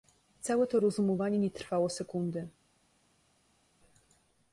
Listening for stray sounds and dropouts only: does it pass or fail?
pass